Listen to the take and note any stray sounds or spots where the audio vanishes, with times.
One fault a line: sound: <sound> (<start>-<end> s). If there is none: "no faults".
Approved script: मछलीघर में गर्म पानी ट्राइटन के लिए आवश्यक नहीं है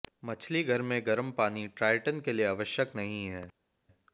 no faults